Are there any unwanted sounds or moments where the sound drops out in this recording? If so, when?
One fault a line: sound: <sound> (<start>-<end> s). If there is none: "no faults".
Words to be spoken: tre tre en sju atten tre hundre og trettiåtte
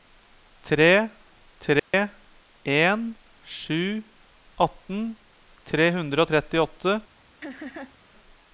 sound: dropout (1.8-1.9 s)
sound: laugh (7.4-8.0 s)